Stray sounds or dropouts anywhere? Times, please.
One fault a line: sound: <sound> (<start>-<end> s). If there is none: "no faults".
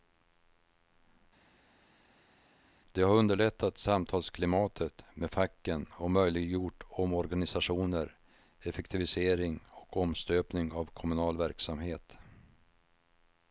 no faults